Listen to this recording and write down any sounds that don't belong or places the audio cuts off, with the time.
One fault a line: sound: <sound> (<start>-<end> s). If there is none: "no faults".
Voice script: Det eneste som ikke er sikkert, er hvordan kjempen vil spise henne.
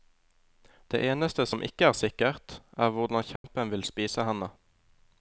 sound: dropout (3.4-3.4 s)